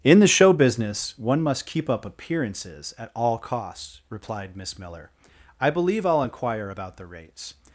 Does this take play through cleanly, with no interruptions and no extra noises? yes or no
yes